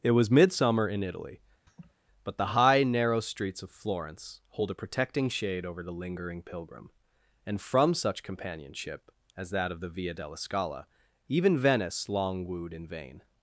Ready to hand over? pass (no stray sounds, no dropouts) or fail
fail